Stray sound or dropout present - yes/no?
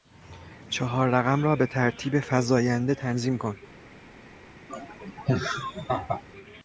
yes